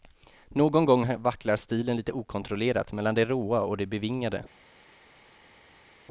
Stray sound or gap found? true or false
false